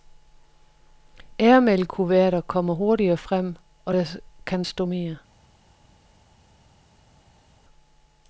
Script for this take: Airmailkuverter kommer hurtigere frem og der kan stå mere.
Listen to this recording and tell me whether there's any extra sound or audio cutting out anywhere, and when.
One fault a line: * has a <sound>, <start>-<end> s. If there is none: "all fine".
all fine